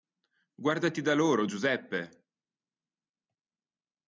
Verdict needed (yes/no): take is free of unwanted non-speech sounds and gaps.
yes